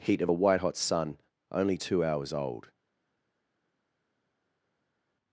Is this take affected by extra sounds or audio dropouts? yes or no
no